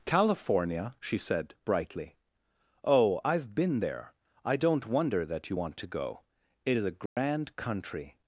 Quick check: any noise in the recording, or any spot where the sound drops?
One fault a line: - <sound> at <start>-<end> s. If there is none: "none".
- dropout at 7.1-7.2 s